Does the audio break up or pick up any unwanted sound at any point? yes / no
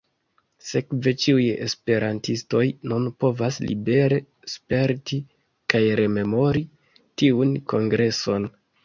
no